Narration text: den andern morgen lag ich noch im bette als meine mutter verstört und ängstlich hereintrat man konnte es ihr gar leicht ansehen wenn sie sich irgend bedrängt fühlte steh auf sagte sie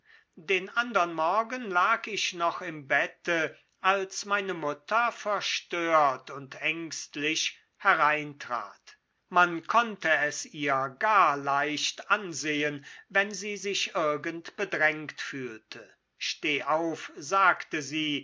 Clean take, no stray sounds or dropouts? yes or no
yes